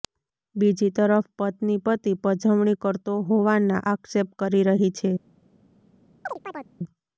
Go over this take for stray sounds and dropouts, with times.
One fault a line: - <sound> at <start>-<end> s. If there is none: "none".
- chirp at 6.3-6.7 s